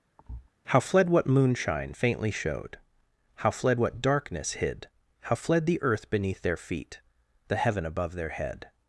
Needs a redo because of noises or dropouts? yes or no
yes